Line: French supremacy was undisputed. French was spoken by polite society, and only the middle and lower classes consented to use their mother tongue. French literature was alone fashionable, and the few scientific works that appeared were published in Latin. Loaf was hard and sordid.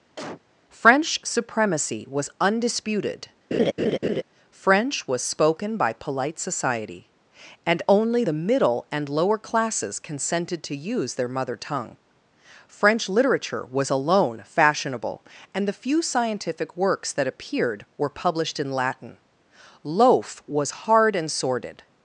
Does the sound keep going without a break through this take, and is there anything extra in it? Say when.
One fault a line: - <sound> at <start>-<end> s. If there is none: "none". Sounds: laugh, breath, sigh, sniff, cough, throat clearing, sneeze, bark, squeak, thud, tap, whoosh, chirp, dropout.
- cough at 0.2-0.4 s
- laugh at 3.5-4.2 s